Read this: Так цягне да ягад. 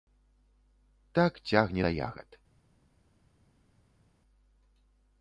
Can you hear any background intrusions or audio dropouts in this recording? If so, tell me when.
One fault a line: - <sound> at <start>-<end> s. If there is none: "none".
none